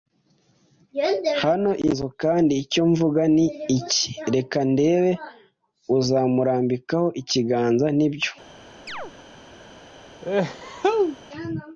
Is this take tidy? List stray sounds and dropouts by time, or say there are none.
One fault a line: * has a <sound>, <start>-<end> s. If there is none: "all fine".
* has a chirp, 8.9-9.1 s
* has a sneeze, 10.2-11.2 s